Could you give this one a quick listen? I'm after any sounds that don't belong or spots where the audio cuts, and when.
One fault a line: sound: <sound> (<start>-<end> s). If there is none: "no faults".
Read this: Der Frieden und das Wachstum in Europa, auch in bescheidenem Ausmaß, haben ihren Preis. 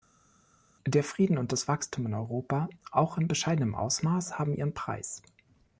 no faults